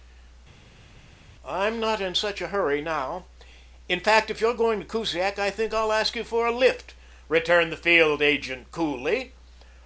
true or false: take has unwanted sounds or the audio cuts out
false